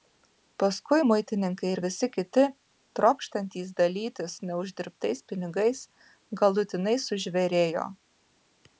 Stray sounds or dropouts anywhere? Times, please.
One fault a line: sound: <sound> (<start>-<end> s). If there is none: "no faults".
no faults